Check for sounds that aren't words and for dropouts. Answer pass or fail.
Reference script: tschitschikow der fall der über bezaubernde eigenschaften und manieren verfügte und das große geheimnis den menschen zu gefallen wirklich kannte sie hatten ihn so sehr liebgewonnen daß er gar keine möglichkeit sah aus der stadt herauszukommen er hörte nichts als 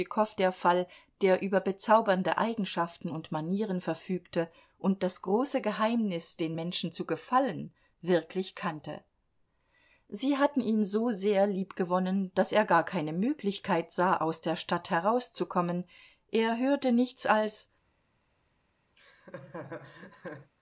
fail